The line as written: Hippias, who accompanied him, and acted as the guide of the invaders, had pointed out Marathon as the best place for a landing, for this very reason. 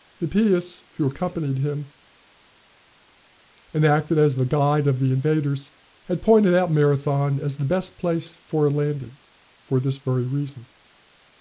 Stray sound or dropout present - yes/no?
no